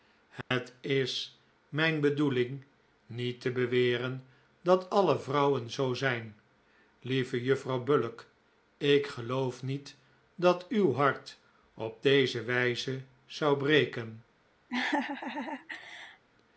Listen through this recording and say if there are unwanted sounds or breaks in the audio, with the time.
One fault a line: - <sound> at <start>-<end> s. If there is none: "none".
- dropout at 0.4-0.5 s
- laugh at 14.7-16.2 s